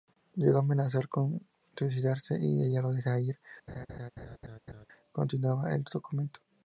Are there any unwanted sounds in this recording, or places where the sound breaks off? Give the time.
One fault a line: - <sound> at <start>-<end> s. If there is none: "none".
- laugh at 3.7-4.9 s